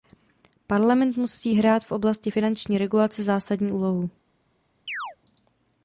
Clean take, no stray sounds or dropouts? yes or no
no